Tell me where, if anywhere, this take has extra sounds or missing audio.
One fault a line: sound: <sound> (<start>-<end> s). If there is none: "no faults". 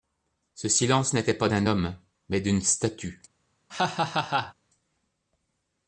sound: laugh (3.7-4.5 s)